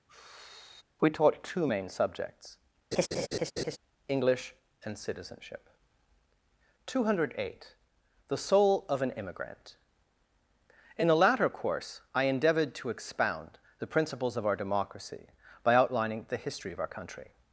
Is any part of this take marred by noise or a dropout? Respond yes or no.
yes